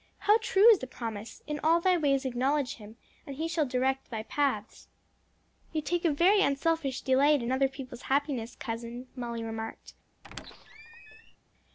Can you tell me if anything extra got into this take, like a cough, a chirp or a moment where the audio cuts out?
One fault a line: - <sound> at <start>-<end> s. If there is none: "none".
- squeak at 10.2-11.4 s